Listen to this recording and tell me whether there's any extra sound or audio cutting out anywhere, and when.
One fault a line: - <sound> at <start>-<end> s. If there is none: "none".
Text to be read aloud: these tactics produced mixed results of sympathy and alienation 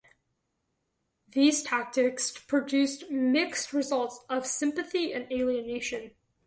none